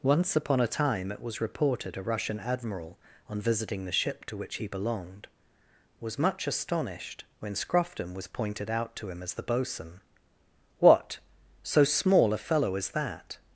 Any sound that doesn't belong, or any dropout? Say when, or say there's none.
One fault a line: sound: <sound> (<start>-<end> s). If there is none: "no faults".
no faults